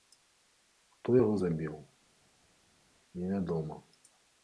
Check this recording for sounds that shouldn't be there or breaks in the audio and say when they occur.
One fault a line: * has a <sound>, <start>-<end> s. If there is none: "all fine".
all fine